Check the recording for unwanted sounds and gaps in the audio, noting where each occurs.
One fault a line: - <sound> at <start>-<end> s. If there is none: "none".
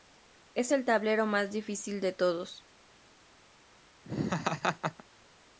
- laugh at 4.0-5.0 s